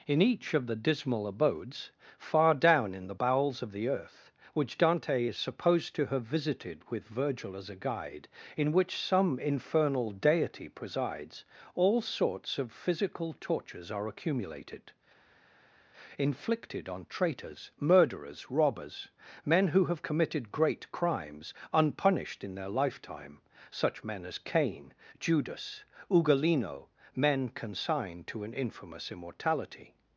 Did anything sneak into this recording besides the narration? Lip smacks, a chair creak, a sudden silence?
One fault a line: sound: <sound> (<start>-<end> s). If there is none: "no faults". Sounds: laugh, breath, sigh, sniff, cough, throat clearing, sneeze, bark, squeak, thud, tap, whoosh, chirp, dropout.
no faults